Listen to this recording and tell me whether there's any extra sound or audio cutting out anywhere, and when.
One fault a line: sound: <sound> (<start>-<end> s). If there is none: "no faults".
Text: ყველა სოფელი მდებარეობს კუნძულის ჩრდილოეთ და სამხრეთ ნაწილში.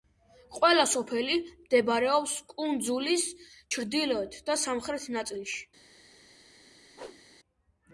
sound: whoosh (6.9-7.2 s)